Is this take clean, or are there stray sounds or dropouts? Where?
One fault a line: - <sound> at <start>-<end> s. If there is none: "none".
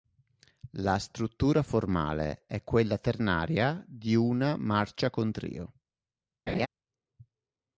- laugh at 6.5-6.7 s